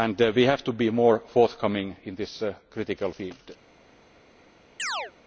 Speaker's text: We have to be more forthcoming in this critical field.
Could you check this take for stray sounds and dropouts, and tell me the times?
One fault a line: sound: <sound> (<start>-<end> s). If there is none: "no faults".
sound: chirp (4.8-5.1 s)